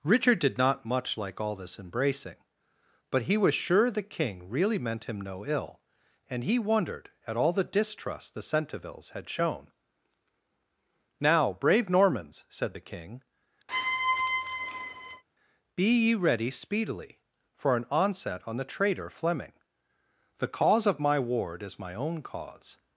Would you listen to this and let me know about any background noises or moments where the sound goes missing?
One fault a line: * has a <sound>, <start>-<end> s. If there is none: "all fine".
* has a squeak, 13.7-15.2 s